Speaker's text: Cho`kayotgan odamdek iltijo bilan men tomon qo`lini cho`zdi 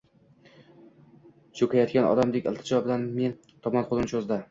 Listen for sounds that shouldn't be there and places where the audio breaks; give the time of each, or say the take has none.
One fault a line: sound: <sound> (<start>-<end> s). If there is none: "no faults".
no faults